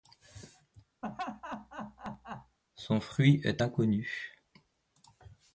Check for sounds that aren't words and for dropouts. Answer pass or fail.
fail